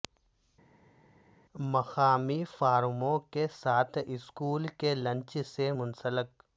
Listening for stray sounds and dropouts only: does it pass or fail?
pass